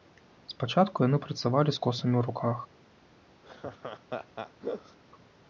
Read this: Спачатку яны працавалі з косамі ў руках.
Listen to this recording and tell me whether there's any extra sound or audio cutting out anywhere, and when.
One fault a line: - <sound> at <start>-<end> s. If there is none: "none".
- laugh at 3.4-5.0 s